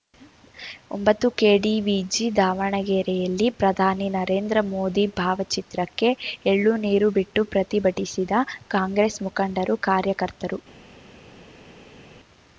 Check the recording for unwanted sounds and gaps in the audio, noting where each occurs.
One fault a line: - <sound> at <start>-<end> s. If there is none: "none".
none